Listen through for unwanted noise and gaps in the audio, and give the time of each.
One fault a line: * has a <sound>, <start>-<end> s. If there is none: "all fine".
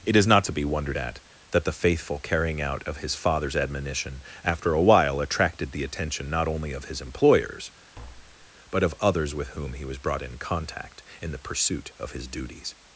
* has a tap, 7.9-8.5 s